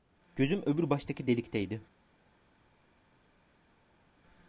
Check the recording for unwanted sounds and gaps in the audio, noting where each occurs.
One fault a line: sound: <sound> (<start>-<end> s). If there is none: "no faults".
no faults